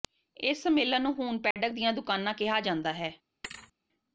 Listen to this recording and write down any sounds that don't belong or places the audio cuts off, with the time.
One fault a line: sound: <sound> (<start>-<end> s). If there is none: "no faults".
sound: dropout (1.5-1.6 s)
sound: thud (3.4-3.7 s)